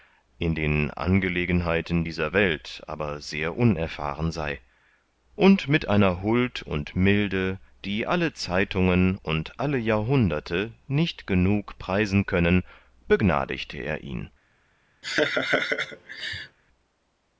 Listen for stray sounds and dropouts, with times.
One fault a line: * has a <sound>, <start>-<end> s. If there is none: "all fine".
* has a laugh, 15.0-16.6 s